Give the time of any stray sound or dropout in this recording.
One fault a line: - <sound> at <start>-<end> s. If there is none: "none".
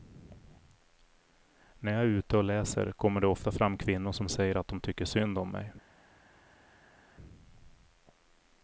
none